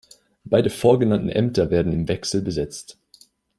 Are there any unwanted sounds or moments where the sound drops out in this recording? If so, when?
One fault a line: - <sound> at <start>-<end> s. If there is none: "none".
none